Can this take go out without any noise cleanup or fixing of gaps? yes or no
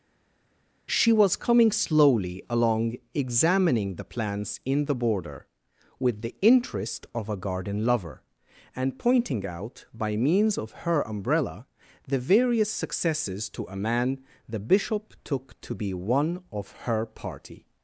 yes